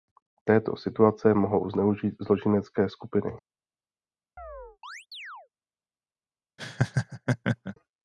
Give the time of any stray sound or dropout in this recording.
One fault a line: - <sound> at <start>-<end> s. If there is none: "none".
- chirp at 4.4-5.5 s
- laugh at 6.6-7.8 s